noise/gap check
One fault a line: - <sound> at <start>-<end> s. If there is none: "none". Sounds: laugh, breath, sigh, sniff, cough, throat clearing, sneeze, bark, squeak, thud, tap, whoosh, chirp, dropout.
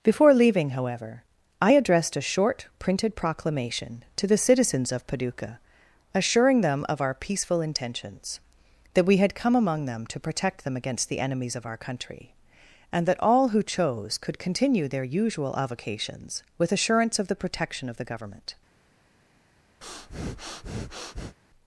- breath at 19.8-21.4 s